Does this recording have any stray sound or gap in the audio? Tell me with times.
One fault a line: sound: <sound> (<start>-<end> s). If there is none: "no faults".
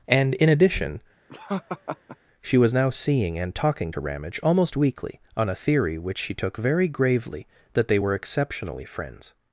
sound: laugh (1.3-2.2 s)